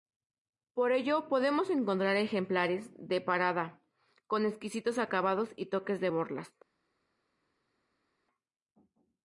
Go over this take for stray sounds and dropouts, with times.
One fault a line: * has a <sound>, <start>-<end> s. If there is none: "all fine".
all fine